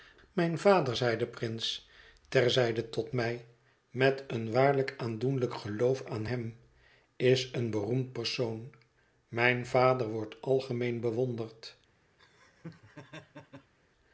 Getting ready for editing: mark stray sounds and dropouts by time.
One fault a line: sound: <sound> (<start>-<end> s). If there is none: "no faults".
sound: laugh (12.2-13.7 s)